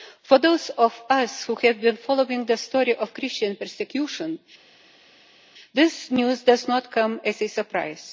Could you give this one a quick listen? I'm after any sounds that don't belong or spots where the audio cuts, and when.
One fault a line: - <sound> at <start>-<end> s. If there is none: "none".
none